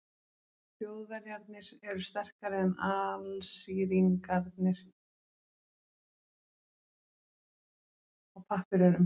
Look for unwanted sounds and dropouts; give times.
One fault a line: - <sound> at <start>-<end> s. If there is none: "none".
none